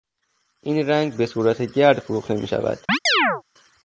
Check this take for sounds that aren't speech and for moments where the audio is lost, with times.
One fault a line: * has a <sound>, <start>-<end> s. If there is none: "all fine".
* has a chirp, 2.9-3.4 s